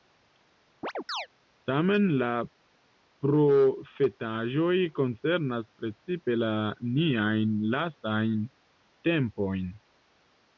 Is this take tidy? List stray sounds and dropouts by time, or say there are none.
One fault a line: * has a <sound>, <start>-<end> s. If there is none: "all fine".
* has a chirp, 0.8-1.3 s